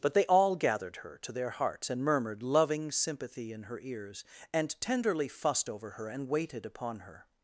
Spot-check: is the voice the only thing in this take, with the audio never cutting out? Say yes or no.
yes